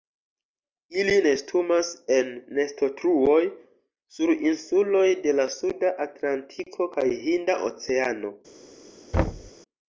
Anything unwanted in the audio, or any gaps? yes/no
yes